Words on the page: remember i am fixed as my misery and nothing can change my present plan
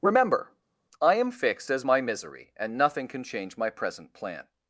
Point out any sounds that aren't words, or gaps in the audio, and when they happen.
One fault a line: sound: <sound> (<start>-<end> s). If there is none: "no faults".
no faults